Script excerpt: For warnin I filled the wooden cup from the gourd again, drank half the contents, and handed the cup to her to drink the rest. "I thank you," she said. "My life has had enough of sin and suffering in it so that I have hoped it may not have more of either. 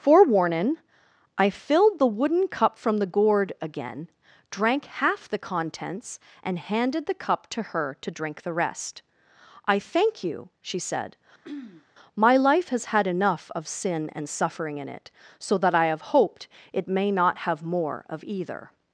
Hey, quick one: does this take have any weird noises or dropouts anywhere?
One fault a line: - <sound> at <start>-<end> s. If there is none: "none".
- throat clearing at 11.4-11.9 s